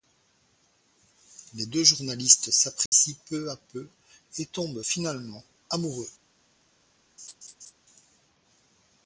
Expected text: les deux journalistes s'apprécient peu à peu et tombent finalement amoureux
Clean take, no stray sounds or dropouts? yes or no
no